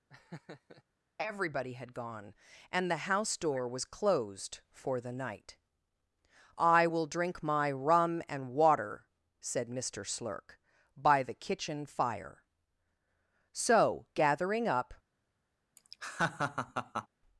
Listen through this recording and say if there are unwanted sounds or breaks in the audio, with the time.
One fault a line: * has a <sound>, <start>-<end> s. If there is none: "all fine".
* has a laugh, 0.1-0.8 s
* has a laugh, 15.8-17.1 s